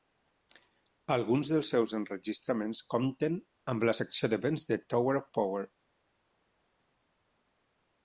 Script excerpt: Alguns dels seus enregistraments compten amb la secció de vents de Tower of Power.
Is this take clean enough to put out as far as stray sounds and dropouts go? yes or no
yes